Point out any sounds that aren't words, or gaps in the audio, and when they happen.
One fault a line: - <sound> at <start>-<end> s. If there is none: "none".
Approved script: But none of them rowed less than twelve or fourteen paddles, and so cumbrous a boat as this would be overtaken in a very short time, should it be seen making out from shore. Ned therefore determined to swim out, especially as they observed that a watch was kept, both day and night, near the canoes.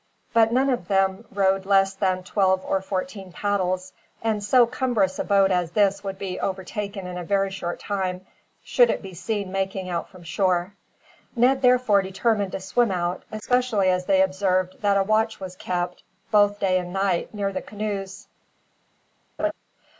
- laugh at 19.4-19.5 s